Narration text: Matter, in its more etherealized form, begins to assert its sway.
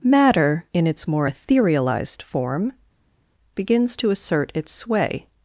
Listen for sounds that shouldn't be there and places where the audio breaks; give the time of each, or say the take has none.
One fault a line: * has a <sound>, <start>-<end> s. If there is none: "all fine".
all fine